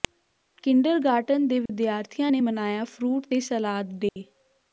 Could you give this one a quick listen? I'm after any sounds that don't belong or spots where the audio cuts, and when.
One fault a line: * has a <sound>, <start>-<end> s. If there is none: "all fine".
* has a dropout, 1.7-1.7 s
* has a dropout, 4.1-4.2 s